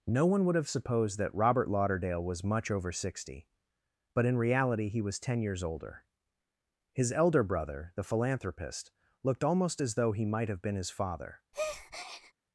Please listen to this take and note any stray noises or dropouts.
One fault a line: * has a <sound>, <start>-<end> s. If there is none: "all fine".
* has a breath, 11.5-12.3 s